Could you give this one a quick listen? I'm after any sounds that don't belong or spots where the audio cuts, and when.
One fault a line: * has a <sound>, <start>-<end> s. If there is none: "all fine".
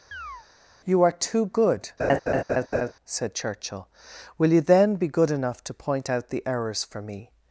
* has a chirp, 0.1-0.5 s
* has a laugh, 2.0-2.9 s